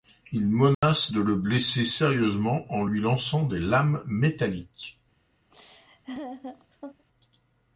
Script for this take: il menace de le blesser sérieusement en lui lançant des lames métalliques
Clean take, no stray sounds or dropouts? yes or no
no